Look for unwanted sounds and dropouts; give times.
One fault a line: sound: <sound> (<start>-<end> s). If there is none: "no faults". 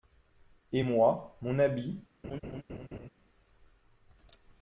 sound: laugh (2.2-3.1 s)